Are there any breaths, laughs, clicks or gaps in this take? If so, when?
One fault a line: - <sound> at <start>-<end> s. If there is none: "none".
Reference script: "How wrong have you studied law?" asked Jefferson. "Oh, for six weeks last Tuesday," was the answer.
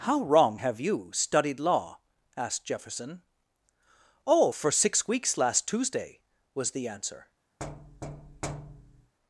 - thud at 7.6-9.1 s